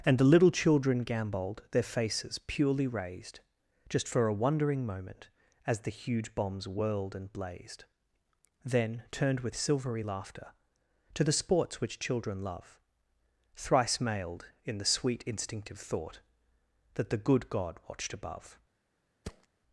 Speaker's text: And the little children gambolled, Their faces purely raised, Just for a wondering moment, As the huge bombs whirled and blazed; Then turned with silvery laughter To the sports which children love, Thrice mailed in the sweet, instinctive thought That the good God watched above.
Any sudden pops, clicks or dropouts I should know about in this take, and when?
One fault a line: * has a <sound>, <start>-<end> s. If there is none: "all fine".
* has a thud, 19.2-19.5 s